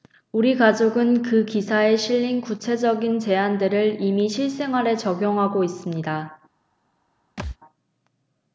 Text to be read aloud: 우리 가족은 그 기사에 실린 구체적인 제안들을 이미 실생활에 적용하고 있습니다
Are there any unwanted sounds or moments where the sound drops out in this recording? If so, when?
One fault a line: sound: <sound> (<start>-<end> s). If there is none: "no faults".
sound: thud (7.4-7.6 s)